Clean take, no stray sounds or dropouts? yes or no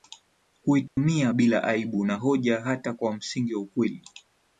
no